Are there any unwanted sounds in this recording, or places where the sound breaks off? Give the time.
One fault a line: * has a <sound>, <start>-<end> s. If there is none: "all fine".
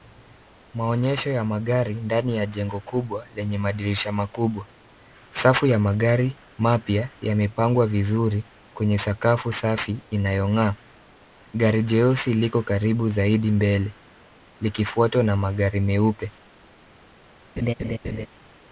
* has a laugh, 17.6-18.3 s